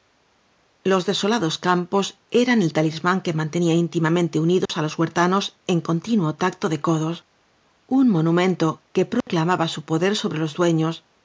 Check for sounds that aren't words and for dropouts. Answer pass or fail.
fail